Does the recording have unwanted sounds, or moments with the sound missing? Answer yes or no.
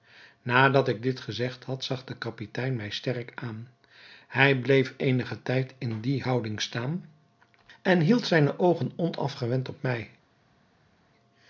no